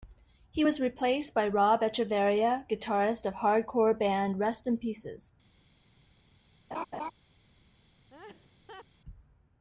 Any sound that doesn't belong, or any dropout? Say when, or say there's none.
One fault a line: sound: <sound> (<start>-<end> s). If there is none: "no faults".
sound: laugh (6.7-7.1 s)
sound: laugh (8.1-8.9 s)